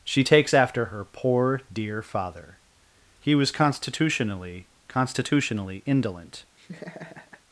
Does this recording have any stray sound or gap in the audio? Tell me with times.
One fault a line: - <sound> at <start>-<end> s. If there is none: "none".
- laugh at 6.6-7.4 s